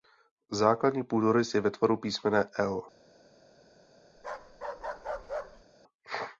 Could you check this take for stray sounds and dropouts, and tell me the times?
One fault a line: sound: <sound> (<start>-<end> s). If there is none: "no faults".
sound: bark (4.2-5.6 s)